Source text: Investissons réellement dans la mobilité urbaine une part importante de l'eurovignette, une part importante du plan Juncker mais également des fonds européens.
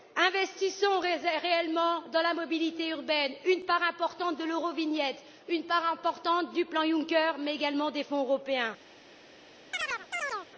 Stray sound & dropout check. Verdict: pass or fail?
fail